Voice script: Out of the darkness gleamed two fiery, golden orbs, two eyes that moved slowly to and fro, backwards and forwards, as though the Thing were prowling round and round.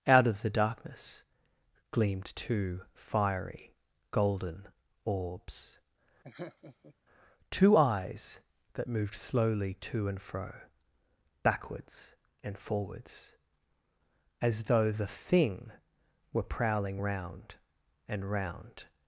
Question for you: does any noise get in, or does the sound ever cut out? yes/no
yes